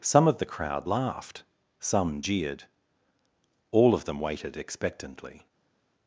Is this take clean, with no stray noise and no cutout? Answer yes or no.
yes